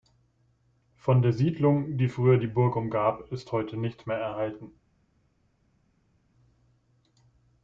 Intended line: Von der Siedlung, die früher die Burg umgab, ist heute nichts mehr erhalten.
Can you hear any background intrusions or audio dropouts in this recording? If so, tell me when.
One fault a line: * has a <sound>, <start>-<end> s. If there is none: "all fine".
all fine